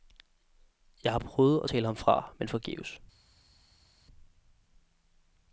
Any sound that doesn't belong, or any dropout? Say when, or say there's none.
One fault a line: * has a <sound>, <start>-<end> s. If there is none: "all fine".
all fine